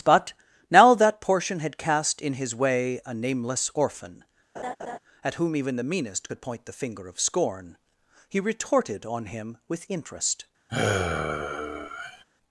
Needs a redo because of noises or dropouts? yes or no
yes